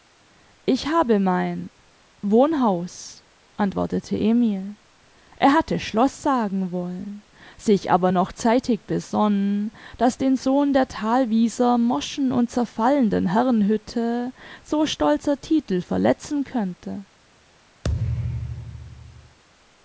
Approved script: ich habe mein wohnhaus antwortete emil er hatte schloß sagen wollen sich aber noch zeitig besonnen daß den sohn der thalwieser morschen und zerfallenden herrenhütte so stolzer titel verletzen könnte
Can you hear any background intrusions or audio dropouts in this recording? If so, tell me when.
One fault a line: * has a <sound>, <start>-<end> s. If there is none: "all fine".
* has a thud, 17.8-19.4 s